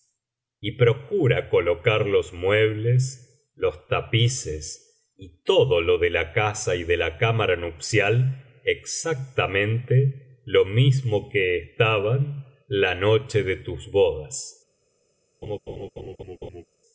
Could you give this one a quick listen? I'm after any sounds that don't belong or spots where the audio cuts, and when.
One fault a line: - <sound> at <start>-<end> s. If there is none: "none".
- laugh at 15.4-16.7 s